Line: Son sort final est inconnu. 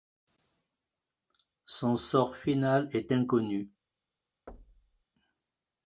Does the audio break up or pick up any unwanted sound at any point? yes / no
yes